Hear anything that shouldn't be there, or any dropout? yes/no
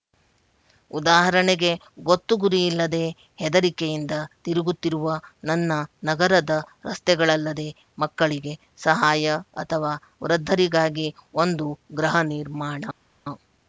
no